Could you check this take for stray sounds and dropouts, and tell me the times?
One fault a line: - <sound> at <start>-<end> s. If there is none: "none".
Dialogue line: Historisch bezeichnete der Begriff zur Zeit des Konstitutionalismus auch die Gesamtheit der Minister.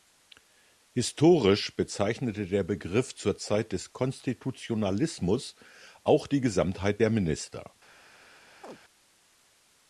- chirp at 8.6-8.8 s